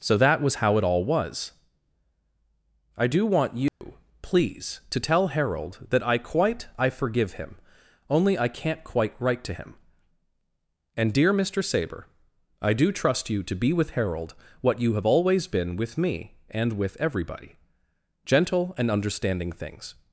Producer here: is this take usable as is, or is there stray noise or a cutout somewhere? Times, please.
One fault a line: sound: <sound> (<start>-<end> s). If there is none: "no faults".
sound: dropout (3.7-3.8 s)